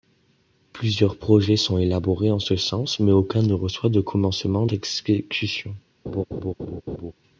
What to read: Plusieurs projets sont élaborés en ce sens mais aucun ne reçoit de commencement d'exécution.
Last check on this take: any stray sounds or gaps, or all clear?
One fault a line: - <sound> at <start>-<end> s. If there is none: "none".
- laugh at 6.1-7.1 s